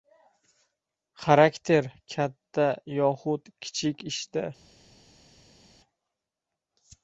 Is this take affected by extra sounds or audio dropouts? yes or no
no